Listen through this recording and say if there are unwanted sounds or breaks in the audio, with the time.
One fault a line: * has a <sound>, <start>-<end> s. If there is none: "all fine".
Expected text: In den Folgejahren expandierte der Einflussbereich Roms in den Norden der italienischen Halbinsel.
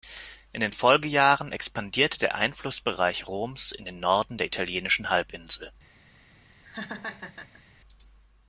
* has a laugh, 6.6-7.6 s